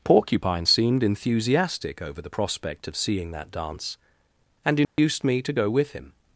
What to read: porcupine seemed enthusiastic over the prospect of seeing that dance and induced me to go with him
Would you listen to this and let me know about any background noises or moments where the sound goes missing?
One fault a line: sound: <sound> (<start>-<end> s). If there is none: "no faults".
sound: dropout (4.8-5.0 s)